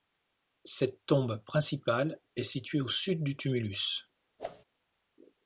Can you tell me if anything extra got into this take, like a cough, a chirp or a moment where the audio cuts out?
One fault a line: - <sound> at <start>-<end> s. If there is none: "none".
- whoosh at 4.4-4.6 s